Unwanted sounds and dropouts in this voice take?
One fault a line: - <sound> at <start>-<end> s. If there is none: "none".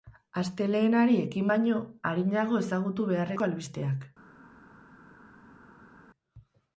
none